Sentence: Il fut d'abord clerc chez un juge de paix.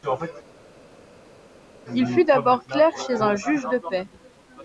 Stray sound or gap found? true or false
false